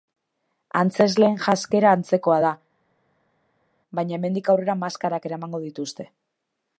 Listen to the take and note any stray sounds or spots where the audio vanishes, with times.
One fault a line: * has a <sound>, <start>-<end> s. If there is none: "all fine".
all fine